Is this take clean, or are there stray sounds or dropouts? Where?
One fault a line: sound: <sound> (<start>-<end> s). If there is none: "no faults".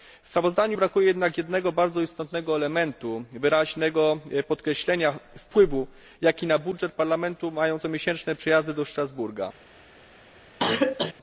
sound: cough (10.6-11.1 s)